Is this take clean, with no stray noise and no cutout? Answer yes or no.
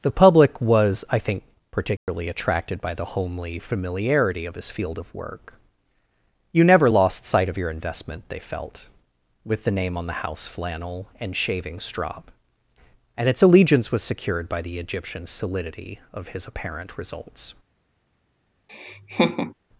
no